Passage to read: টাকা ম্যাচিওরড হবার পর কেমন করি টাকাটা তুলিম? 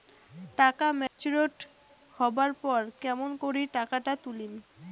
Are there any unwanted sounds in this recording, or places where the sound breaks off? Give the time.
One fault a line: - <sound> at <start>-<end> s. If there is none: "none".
- dropout at 1.1-1.2 s